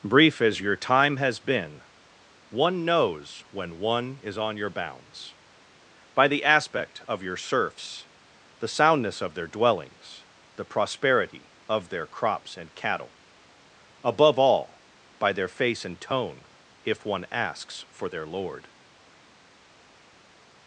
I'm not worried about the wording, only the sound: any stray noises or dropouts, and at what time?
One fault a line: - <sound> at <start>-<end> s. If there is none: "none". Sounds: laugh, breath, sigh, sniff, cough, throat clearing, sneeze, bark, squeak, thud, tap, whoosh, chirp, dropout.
none